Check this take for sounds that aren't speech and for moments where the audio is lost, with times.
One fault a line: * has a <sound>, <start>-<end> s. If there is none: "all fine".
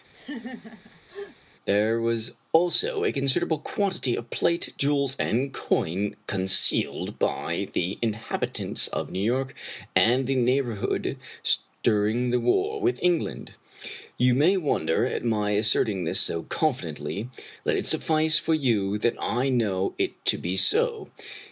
* has a laugh, 0.1-1.4 s